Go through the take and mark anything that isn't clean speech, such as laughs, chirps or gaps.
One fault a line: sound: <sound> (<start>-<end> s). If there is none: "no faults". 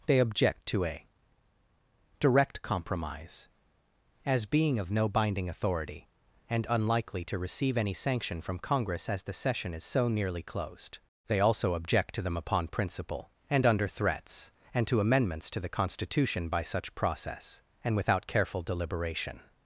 no faults